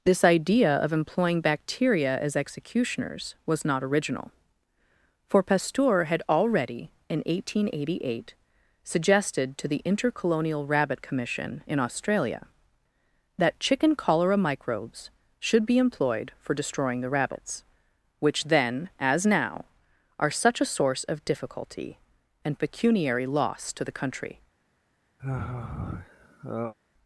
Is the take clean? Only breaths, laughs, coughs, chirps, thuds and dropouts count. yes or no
no